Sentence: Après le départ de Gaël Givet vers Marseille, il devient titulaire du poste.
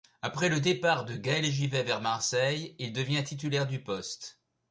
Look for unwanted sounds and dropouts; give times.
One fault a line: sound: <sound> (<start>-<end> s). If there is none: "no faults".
no faults